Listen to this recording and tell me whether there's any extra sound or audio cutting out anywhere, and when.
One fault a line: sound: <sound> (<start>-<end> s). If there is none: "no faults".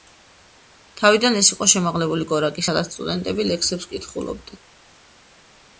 no faults